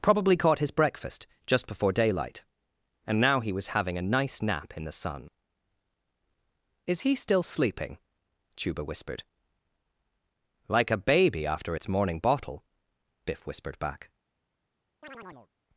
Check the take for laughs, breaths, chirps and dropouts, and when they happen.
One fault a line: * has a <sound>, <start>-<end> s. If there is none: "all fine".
* has a chirp, 15.0-15.5 s